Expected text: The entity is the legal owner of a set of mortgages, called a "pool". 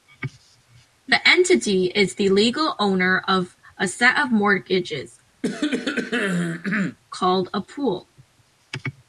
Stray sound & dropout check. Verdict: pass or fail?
fail